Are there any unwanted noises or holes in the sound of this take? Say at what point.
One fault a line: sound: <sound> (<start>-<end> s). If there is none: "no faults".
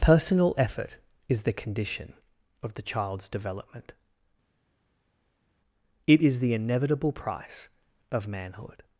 no faults